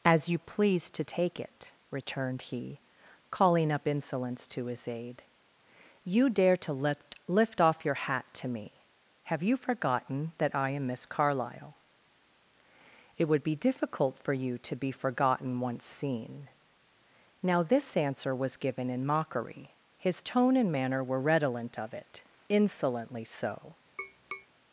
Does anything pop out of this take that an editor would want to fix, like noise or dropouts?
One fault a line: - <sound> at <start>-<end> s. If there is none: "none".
- tap at 24.0-24.5 s